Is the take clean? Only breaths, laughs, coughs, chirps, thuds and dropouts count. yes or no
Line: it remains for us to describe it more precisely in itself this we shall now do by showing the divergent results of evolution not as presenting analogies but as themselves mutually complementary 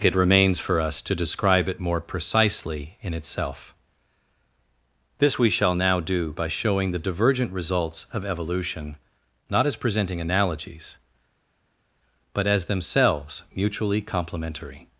yes